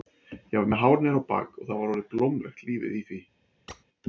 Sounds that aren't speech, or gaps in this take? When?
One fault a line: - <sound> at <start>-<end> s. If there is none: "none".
- squeak at 3.7-3.8 s